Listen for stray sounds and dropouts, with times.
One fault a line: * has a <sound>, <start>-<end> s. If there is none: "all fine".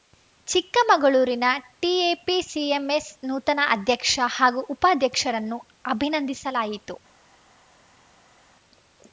all fine